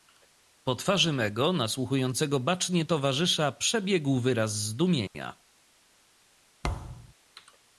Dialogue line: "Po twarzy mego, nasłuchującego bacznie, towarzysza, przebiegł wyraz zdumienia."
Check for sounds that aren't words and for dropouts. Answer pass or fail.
fail